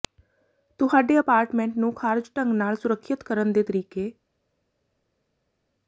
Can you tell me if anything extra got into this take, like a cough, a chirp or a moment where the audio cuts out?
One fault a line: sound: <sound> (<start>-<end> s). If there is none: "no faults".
no faults